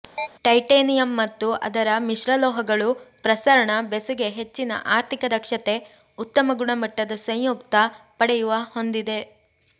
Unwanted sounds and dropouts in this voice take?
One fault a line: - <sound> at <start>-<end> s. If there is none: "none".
- chirp at 0.2-0.3 s